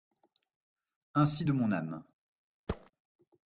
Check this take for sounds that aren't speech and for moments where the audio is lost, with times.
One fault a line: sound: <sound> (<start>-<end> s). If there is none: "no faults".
sound: thud (2.7-2.9 s)